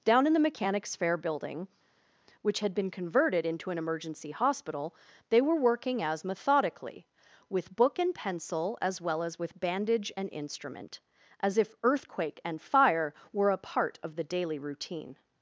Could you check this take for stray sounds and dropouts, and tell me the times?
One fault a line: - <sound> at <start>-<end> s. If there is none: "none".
none